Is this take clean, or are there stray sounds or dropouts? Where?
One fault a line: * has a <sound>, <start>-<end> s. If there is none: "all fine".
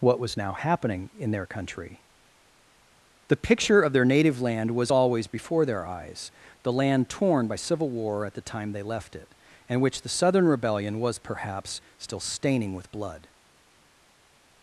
all fine